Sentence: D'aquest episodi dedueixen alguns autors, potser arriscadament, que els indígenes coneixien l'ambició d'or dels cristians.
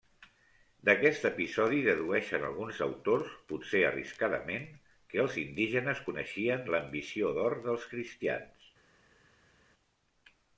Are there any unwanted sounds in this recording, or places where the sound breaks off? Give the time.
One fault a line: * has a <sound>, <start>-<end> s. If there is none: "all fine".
all fine